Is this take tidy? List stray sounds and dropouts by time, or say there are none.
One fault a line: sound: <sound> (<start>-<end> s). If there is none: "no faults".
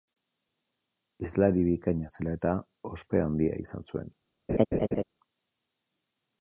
sound: laugh (4.5-5.0 s)